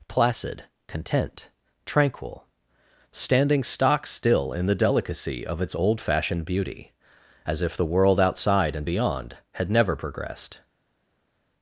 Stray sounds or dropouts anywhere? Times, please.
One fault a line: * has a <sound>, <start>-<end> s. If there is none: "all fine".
all fine